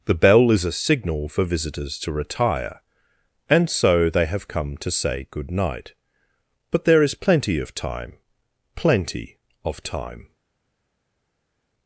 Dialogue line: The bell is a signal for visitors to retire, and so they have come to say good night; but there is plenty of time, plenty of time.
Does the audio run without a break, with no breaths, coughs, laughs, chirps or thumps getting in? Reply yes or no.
yes